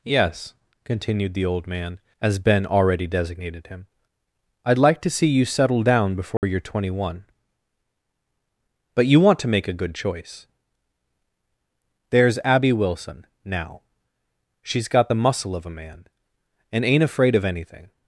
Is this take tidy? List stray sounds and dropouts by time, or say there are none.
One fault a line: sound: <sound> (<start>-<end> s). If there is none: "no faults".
sound: dropout (6.4-6.4 s)